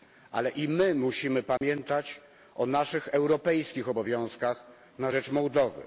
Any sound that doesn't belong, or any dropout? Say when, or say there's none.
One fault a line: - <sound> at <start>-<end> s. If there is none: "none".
- dropout at 1.6-1.6 s